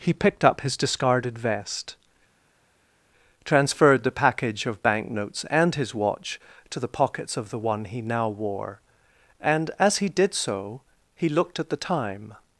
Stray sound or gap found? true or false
false